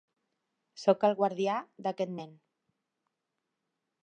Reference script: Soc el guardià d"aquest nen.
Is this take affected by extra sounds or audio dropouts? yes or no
no